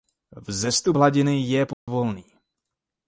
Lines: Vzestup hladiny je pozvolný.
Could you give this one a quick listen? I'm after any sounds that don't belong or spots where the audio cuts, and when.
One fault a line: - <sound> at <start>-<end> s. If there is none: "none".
- dropout at 1.7-1.9 s